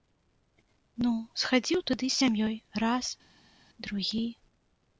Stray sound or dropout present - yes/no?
no